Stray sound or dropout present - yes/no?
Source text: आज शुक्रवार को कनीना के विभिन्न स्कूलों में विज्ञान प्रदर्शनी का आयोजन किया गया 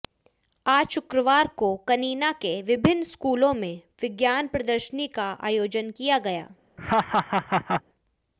yes